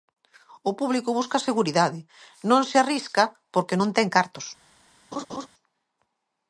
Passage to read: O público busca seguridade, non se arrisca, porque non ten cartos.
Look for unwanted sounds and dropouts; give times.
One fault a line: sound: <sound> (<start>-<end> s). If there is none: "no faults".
sound: laugh (5.1-5.5 s)